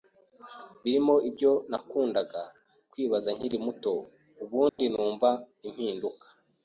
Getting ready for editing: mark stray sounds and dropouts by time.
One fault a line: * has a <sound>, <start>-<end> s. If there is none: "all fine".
* has a dropout, 4.7-4.8 s